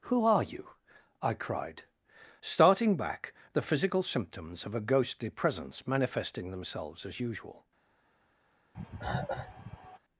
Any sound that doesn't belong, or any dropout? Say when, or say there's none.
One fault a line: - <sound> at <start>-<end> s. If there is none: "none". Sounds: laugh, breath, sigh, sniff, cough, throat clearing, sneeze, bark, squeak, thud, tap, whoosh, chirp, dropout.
- cough at 8.7-10.0 s